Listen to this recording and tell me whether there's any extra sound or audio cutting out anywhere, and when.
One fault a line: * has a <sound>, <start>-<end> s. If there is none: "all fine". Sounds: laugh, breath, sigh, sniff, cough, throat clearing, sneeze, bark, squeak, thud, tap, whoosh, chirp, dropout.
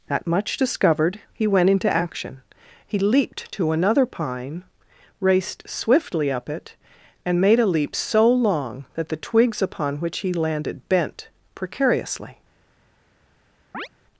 * has a chirp, 13.7-13.9 s